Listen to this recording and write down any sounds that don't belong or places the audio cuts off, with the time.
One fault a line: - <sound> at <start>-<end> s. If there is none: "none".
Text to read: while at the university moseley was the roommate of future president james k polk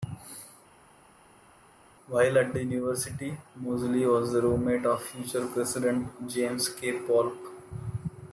none